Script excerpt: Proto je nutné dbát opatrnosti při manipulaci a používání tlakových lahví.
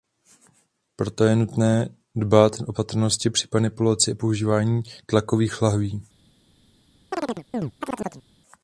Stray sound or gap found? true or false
true